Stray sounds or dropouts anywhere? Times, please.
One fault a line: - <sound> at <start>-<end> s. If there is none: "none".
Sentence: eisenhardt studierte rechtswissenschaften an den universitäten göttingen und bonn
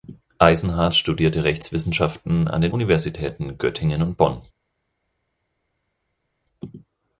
none